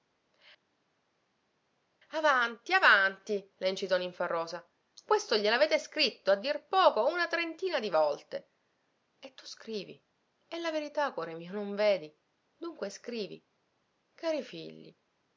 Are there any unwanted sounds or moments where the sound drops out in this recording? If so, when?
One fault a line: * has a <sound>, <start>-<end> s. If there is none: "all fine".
all fine